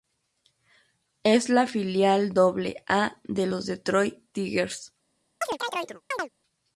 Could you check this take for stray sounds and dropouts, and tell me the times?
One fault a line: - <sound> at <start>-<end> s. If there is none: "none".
- chirp at 5.4-6.3 s